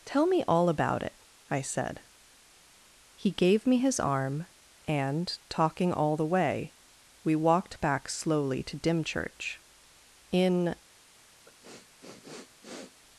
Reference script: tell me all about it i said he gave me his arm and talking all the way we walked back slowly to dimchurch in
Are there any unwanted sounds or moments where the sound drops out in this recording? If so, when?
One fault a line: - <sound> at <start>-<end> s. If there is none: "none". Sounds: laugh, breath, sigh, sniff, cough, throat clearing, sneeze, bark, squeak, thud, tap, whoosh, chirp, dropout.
- sniff at 11.5-13.0 s